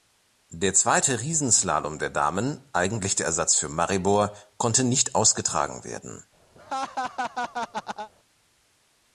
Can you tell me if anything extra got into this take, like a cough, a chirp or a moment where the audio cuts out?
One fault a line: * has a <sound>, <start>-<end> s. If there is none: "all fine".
* has a laugh, 6.5-8.1 s